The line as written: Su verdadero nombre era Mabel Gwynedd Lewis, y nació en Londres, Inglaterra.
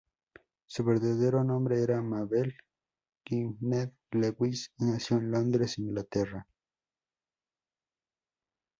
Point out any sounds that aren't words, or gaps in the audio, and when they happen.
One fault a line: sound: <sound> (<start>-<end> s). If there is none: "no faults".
no faults